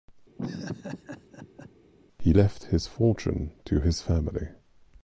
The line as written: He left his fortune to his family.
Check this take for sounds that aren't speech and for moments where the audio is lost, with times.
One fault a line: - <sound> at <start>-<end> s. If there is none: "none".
- laugh at 0.4-1.7 s